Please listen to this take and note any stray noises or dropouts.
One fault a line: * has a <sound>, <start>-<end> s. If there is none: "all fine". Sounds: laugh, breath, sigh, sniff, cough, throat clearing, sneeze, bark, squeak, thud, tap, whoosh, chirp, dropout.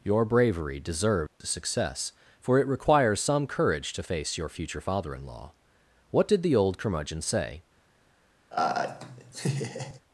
* has a dropout, 1.3-1.4 s
* has a laugh, 8.5-10.0 s